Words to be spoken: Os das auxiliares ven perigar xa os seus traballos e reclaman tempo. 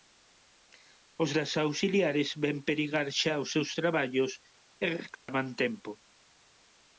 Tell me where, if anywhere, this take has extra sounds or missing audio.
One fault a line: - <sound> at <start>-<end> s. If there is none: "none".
- dropout at 5.1-5.3 s